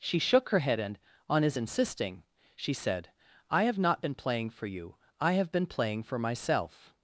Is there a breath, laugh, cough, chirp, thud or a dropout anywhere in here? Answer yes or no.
no